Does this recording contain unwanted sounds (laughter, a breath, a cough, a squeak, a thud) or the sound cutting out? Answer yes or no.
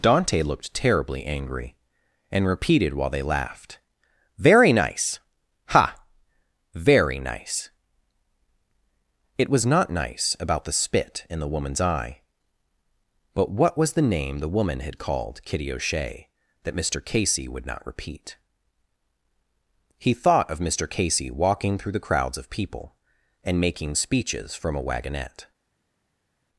no